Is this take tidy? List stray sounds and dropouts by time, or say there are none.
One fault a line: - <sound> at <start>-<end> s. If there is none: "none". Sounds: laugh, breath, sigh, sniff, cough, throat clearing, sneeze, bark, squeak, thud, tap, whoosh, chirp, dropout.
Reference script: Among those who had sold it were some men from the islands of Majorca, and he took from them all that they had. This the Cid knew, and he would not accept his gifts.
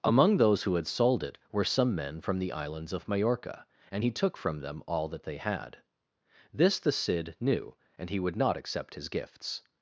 none